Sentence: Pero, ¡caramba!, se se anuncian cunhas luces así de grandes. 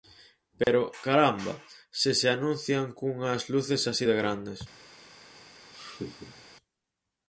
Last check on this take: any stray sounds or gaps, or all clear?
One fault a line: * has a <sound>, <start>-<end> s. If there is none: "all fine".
* has a dropout, 0.6-0.7 s
* has a laugh, 5.7-6.5 s